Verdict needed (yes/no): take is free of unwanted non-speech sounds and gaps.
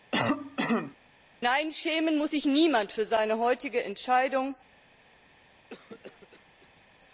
no